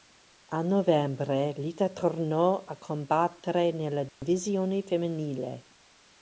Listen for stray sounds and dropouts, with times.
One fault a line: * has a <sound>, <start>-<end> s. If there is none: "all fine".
* has a dropout, 4.1-4.2 s